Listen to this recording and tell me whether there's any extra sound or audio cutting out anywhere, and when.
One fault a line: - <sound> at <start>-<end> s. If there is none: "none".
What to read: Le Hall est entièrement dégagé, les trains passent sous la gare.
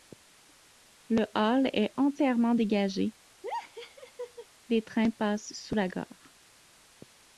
- laugh at 3.4-4.5 s